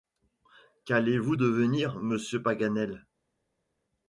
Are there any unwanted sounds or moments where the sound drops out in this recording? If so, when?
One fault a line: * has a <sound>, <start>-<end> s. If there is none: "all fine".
all fine